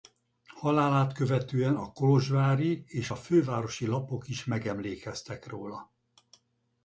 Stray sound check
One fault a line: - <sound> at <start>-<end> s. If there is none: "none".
none